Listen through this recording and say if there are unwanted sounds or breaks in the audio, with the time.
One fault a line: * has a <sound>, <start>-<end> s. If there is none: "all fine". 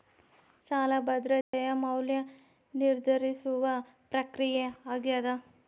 * has a dropout, 1.4-1.5 s